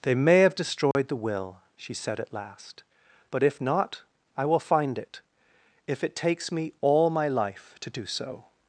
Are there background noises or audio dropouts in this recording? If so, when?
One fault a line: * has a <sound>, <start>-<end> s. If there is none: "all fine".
* has a dropout, 0.9-0.9 s